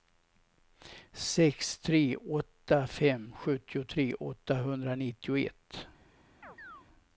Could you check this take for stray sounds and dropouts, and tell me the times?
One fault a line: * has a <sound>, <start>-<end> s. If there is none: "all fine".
* has a chirp, 6.4-6.9 s